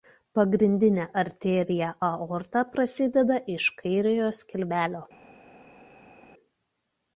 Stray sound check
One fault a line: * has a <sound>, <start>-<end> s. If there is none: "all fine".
all fine